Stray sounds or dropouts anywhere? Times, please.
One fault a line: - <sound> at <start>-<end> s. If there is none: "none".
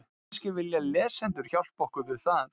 none